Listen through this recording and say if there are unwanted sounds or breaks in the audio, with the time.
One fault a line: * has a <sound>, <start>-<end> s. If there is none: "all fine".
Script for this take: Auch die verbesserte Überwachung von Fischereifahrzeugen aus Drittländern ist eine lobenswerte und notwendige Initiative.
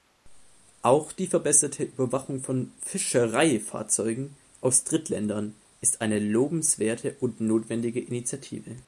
all fine